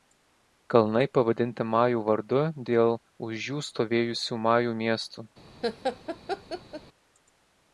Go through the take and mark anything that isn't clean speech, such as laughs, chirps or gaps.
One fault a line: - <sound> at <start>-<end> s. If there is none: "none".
- laugh at 5.6-6.8 s